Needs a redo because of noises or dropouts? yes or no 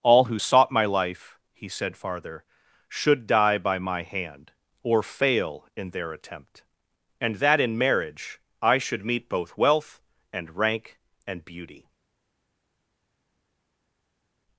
no